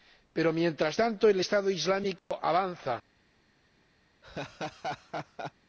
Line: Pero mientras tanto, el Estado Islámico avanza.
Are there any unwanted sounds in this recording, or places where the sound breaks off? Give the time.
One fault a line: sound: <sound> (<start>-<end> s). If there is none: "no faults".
sound: dropout (2.2-2.3 s)
sound: laugh (4.2-5.5 s)